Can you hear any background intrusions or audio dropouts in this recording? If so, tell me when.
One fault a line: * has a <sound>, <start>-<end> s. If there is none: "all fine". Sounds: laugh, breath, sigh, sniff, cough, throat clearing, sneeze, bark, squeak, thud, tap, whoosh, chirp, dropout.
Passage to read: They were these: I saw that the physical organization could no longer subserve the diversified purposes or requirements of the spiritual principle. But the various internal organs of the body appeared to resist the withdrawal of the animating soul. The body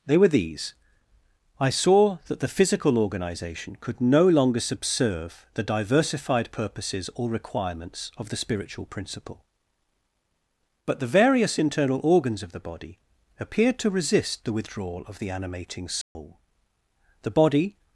* has a dropout, 16.0-16.2 s